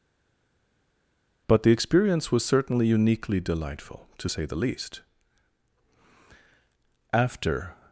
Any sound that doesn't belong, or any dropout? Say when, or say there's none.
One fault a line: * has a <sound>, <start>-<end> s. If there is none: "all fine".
all fine